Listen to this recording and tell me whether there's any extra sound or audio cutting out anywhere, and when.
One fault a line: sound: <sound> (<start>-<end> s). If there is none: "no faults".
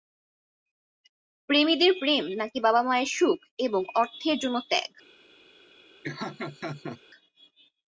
sound: laugh (6.0-7.0 s)